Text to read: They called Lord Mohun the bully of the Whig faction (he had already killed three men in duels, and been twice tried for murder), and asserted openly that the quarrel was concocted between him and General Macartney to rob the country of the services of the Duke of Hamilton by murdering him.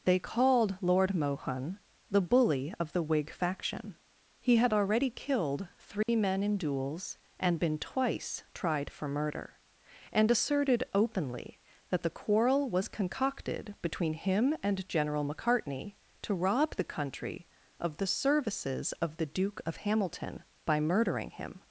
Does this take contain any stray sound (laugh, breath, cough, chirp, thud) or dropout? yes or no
yes